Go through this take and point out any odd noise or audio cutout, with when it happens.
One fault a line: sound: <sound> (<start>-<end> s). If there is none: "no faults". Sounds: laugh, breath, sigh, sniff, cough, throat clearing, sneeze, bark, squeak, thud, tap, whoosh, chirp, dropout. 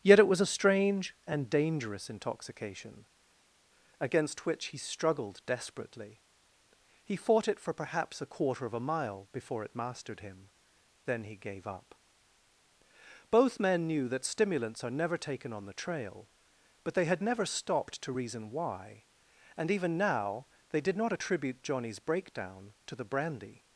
no faults